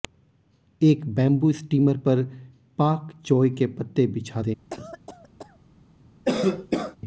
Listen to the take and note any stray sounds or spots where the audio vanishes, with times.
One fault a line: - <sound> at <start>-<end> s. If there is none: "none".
- cough at 4.7-5.6 s
- cough at 6.2-7.0 s